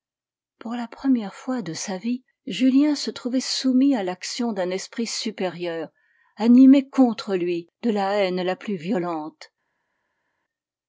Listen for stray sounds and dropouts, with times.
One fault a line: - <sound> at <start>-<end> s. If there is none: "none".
none